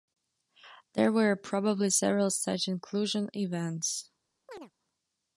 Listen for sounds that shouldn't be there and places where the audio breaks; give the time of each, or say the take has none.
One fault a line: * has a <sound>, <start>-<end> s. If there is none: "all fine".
* has a chirp, 4.5-4.7 s